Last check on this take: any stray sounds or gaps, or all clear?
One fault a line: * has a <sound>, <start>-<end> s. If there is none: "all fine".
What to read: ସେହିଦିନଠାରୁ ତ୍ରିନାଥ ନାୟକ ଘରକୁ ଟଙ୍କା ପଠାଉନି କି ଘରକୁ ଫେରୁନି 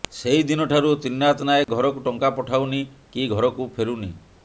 * has a dropout, 1.6-1.7 s